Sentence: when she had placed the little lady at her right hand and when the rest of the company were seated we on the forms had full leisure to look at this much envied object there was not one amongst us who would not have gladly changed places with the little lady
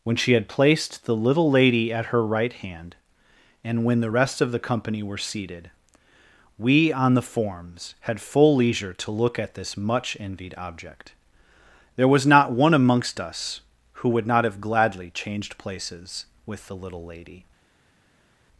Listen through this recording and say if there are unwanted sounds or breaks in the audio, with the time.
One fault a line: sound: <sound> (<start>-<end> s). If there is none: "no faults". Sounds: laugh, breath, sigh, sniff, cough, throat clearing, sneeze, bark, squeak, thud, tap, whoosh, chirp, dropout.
no faults